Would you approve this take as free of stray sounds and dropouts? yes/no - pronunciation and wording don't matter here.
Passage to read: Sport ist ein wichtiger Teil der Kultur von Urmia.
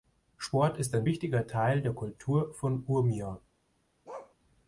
no